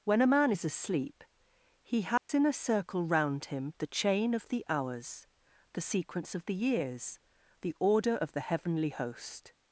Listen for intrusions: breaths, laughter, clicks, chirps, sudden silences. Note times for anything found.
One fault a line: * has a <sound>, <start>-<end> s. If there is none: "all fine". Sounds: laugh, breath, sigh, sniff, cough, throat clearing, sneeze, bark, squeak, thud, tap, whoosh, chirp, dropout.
* has a dropout, 2.2-2.3 s